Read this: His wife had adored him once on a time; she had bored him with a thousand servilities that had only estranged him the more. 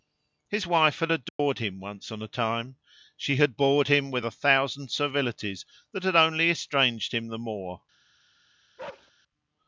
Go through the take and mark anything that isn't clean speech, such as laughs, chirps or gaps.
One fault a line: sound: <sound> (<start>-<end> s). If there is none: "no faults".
sound: dropout (1.3-1.4 s)
sound: bark (8.8-9.1 s)